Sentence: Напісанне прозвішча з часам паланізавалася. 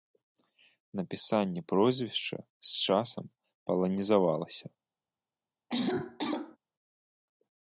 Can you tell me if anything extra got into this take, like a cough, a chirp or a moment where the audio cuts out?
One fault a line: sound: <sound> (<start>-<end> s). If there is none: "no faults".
sound: cough (5.7-6.6 s)